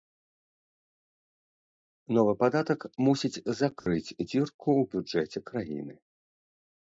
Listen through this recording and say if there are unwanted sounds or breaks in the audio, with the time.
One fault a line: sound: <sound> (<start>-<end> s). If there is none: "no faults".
sound: dropout (3.8-3.9 s)